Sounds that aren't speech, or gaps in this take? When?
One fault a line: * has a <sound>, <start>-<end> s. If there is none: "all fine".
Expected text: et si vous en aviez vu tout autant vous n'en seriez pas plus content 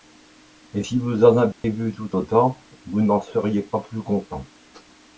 * has a dropout, 1.5-1.6 s